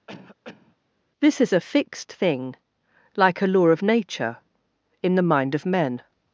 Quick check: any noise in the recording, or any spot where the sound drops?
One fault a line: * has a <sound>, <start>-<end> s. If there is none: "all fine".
* has a cough, 0.1-0.8 s